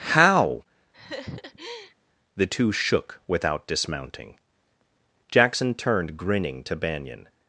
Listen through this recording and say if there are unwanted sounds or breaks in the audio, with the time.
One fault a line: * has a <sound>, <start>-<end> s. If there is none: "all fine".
* has a laugh, 0.9-1.9 s